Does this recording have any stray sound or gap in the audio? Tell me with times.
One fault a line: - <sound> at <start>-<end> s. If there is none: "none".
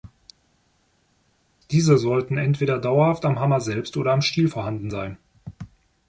none